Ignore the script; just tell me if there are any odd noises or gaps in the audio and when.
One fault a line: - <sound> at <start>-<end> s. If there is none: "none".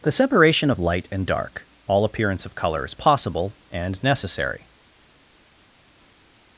none